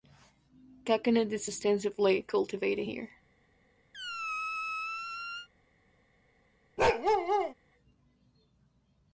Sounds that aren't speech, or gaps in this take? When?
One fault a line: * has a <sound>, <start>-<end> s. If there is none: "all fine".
* has a squeak, 3.9-5.5 s
* has a bark, 6.8-7.5 s